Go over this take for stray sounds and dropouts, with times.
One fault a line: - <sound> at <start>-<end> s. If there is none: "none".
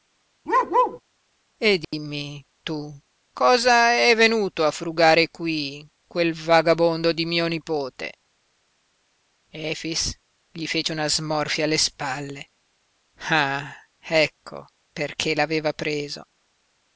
- bark at 0.5-1.0 s
- dropout at 1.8-1.9 s